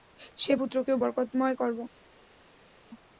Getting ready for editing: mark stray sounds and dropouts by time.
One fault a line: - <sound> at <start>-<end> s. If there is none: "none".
none